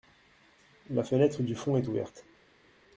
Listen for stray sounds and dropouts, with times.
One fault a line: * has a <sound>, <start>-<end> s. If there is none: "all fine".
all fine